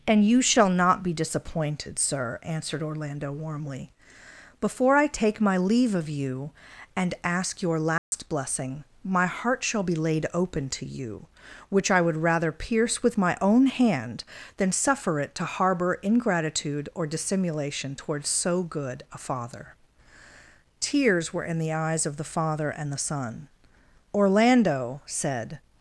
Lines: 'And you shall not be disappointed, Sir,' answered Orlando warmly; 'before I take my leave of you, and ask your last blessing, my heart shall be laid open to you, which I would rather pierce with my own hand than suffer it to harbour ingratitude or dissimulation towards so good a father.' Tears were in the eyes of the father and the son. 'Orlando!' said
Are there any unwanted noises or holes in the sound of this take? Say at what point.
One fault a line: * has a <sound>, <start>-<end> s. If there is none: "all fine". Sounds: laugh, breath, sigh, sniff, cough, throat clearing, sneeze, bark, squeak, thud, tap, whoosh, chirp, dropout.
* has a dropout, 8.0-8.1 s